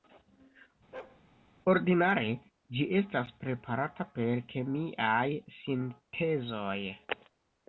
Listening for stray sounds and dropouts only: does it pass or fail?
fail